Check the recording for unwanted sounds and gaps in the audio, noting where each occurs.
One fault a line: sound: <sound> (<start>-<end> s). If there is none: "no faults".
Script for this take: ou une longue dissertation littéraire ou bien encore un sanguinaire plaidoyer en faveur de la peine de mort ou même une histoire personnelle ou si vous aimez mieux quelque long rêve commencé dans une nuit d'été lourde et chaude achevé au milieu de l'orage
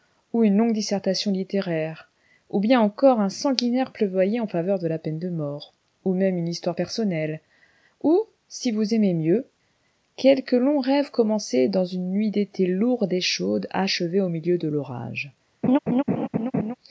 sound: laugh (15.6-16.7 s)